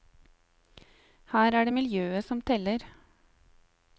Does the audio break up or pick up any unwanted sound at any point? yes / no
no